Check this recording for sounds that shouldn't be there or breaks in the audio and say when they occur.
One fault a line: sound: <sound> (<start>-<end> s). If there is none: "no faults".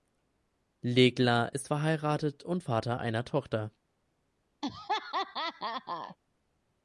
sound: laugh (4.6-6.2 s)